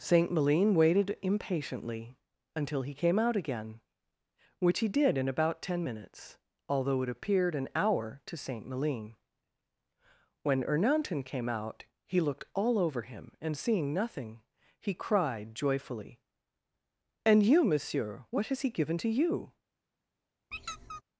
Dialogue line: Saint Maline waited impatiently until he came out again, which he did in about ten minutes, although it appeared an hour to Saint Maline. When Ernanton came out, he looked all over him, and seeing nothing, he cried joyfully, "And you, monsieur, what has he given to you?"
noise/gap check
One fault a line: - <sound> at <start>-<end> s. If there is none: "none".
- squeak at 20.5-21.0 s